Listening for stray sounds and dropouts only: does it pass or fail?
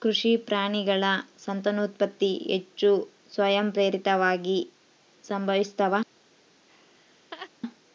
fail